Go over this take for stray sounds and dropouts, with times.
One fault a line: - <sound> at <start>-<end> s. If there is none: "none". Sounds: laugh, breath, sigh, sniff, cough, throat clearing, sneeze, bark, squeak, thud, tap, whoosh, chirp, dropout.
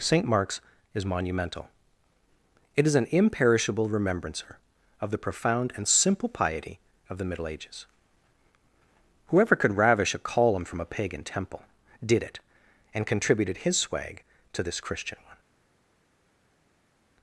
none